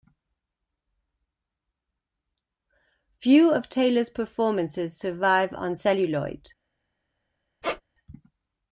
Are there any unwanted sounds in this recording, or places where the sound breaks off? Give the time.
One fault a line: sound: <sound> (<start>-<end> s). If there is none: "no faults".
sound: squeak (7.6-7.8 s)